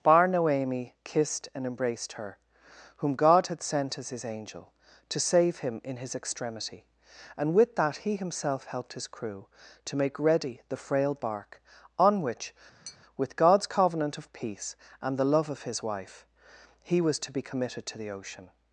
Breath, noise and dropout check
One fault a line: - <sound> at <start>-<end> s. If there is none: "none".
- tap at 12.9-13.0 s